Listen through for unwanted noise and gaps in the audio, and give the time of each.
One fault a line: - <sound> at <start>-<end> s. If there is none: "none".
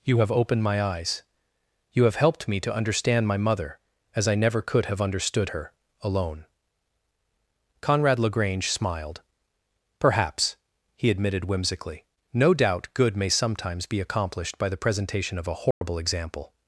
- dropout at 15.7-15.8 s